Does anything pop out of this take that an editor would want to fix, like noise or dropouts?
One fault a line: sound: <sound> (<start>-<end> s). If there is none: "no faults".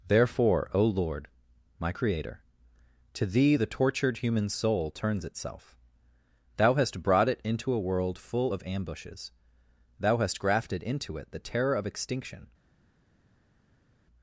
no faults